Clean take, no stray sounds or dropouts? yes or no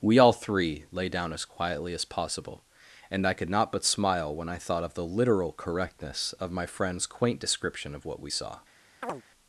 no